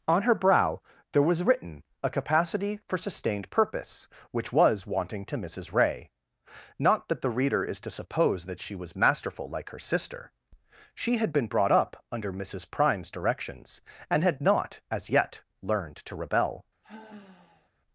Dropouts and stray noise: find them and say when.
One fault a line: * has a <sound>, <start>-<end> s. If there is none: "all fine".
* has a sigh, 16.8-17.7 s